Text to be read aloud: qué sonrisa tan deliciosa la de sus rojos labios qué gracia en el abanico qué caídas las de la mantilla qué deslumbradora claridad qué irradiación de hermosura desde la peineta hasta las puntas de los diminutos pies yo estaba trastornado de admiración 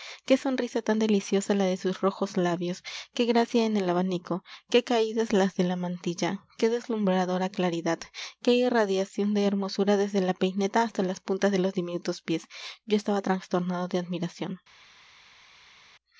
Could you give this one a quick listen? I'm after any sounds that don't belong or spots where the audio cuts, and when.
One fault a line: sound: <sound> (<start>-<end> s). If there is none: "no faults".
no faults